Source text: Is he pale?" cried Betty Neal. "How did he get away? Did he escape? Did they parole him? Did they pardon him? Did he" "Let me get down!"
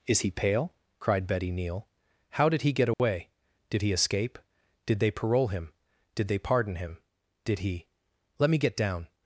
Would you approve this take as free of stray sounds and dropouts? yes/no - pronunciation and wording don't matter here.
no